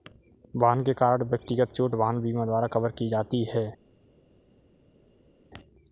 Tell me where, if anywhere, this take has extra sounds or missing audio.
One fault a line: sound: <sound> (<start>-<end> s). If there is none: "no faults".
no faults